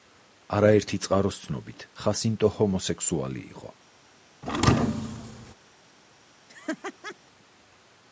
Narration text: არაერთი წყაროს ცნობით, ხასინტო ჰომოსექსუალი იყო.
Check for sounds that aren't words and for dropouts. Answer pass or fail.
fail